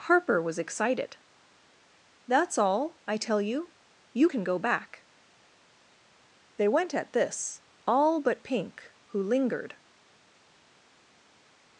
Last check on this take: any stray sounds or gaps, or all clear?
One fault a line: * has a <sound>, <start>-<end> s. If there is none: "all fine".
all fine